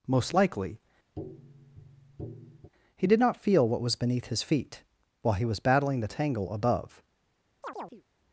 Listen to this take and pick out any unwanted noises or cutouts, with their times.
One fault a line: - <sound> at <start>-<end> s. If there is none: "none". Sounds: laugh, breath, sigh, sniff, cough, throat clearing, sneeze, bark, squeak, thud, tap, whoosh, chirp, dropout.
- tap at 1.2-2.7 s
- chirp at 7.6-8.0 s